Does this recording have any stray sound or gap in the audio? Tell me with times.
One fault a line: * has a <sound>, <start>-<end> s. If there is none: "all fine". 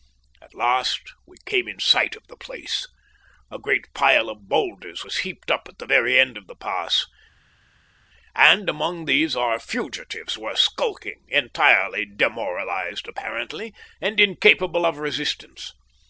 all fine